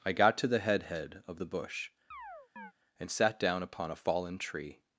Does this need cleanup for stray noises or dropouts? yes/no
yes